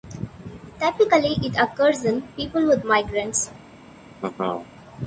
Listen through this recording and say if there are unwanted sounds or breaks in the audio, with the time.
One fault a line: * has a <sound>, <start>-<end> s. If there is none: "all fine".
* has a laugh, 4.2-4.7 s